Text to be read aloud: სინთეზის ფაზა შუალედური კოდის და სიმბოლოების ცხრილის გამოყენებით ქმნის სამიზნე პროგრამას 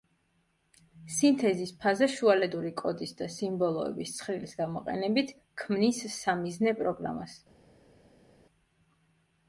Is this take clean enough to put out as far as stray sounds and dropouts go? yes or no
yes